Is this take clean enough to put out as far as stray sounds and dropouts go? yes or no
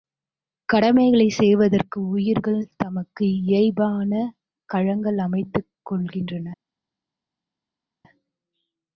yes